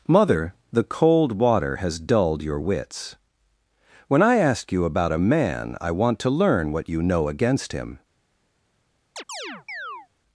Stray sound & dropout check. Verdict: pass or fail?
fail